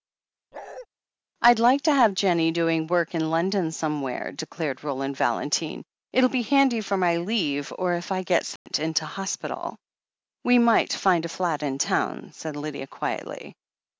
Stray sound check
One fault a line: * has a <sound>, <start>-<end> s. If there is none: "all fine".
* has a bark, 0.5-0.9 s
* has a dropout, 8.6-8.7 s